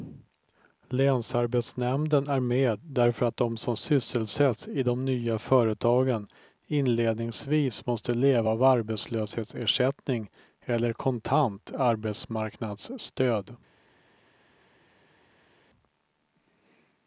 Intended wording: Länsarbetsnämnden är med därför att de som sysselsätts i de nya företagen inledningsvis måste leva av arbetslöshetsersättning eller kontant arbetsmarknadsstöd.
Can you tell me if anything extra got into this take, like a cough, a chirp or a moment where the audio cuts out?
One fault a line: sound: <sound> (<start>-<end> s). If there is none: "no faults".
no faults